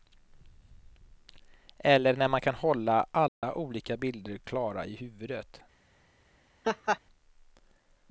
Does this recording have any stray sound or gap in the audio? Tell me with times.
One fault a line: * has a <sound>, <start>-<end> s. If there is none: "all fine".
* has a dropout, 3.3-3.4 s
* has a laugh, 6.6-7.0 s